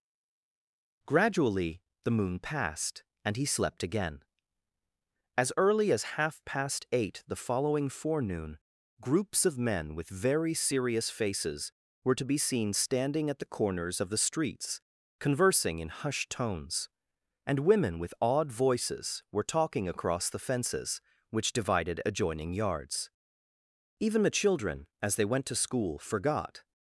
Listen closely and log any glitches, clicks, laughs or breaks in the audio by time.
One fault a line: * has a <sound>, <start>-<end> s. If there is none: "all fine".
all fine